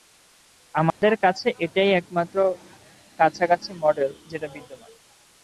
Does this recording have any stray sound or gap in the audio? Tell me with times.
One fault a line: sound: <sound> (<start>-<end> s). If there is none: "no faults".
sound: dropout (0.9-1.0 s)